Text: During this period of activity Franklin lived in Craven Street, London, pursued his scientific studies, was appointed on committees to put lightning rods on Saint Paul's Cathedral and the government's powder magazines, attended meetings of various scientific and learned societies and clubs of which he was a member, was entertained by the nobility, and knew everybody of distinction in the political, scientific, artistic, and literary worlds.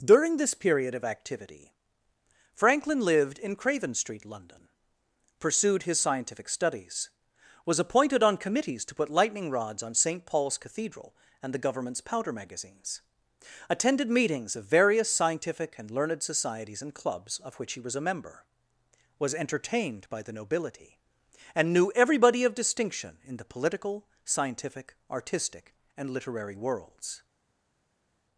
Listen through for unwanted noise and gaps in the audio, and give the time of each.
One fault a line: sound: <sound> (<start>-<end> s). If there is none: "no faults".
no faults